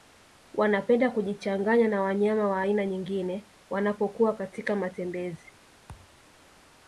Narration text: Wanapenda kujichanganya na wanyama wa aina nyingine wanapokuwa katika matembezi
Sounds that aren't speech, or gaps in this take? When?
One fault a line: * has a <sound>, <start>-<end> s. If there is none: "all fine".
* has a thud, 5.9-6.2 s